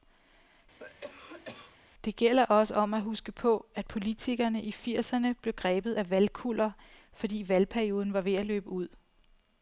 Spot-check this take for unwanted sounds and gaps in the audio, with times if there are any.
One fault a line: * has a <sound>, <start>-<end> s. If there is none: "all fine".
* has a cough, 0.8-1.8 s